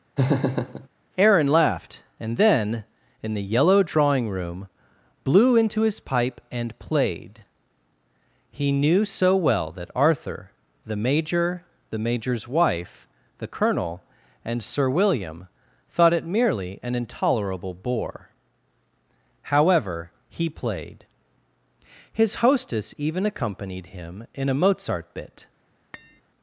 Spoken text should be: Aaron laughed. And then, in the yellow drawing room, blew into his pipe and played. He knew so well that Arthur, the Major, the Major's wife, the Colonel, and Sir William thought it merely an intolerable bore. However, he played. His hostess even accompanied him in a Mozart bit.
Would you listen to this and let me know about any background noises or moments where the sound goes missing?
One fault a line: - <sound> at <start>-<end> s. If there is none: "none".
- laugh at 0.2-0.9 s
- tap at 25.9-26.2 s